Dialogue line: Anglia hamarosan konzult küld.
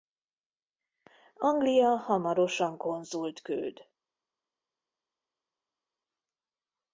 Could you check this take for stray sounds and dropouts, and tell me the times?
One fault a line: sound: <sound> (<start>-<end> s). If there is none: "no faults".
no faults